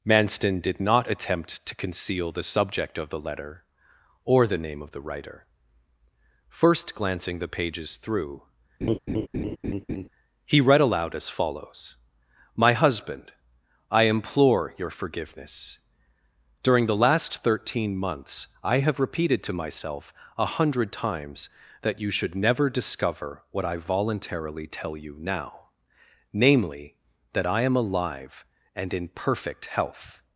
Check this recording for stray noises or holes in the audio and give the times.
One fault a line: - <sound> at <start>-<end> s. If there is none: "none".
- laugh at 8.8-10.1 s